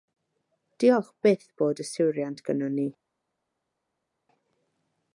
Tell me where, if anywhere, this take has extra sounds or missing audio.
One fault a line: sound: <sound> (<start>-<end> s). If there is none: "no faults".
no faults